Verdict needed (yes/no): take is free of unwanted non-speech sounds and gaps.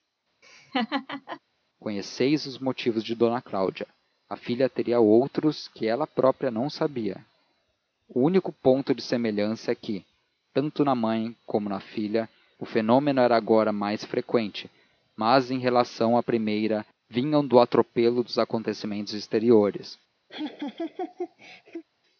no